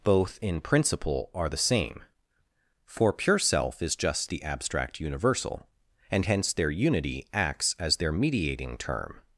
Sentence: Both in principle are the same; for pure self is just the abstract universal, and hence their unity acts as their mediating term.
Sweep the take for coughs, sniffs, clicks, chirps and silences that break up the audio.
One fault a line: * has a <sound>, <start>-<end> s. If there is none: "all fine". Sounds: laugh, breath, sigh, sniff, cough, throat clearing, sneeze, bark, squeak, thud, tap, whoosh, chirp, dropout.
all fine